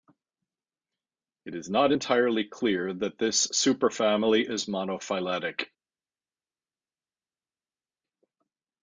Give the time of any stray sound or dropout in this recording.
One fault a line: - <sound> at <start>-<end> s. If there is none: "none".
none